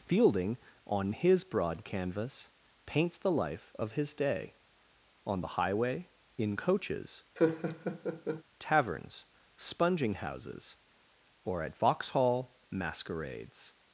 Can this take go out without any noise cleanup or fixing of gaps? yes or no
no